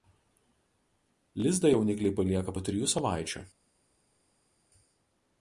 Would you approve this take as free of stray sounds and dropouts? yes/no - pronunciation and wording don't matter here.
yes